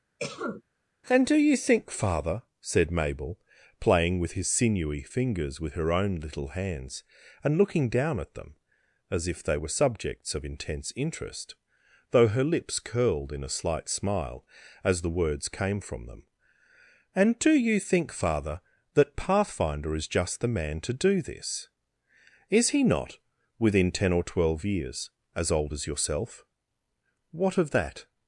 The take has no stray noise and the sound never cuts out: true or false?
false